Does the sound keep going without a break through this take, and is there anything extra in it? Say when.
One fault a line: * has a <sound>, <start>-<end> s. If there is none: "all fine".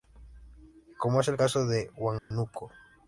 * has a dropout, 2.2-2.3 s